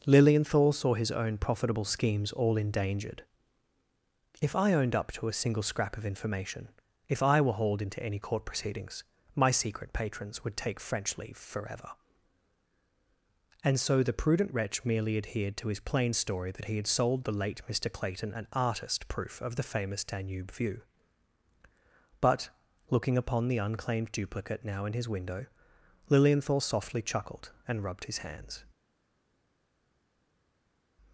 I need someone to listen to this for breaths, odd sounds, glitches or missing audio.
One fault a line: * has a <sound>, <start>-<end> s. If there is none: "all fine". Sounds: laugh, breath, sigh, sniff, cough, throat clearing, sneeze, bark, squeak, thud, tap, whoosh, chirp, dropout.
all fine